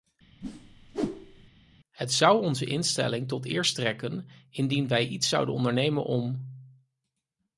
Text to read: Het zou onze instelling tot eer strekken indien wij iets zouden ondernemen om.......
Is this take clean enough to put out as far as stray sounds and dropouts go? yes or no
no